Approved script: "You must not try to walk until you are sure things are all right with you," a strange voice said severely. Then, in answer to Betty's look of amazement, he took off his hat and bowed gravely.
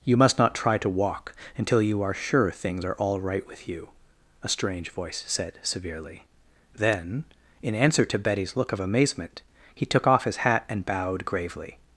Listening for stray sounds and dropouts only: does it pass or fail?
pass